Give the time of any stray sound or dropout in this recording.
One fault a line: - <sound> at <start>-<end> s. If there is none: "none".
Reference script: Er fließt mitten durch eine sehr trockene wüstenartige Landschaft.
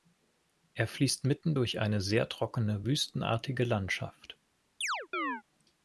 - chirp at 4.8-5.4 s